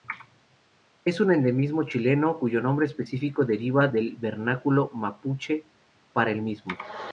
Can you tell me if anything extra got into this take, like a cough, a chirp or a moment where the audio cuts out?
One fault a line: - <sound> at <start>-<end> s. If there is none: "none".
none